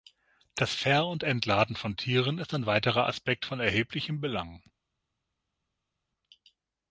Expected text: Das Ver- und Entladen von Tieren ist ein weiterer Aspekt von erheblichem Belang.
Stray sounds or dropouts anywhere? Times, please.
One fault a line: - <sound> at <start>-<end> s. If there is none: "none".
none